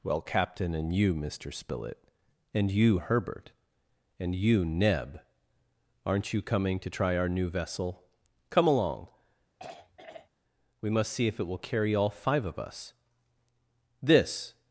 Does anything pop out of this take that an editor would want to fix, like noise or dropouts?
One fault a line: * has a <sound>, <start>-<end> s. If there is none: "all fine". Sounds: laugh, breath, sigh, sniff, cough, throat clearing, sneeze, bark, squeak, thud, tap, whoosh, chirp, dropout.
* has a throat clearing, 9.6-10.3 s